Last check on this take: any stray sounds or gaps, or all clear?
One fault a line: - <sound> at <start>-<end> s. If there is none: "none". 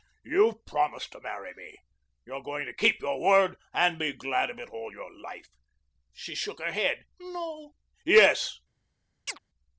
- chirp at 9.3-9.4 s